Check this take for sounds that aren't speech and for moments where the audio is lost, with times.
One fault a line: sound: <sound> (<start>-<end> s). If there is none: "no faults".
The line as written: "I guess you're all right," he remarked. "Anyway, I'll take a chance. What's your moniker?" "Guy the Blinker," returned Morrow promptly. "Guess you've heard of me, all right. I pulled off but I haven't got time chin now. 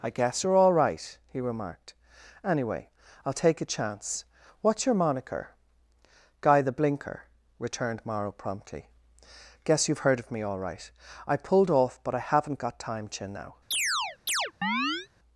sound: chirp (13.7-15.1 s)